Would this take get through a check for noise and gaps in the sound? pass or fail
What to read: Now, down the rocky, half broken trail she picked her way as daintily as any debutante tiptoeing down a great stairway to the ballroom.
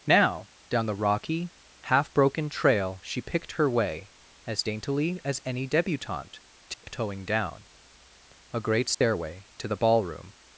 fail